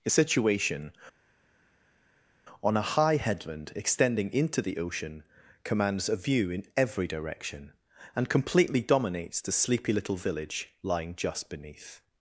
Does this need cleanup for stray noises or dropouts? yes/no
no